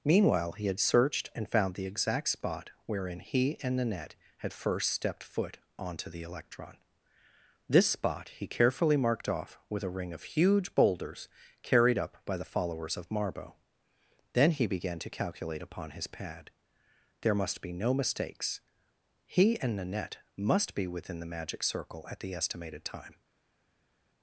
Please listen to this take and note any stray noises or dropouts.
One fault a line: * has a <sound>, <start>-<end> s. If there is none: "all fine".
all fine